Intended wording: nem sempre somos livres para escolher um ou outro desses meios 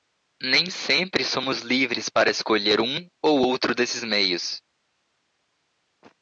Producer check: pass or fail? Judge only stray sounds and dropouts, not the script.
pass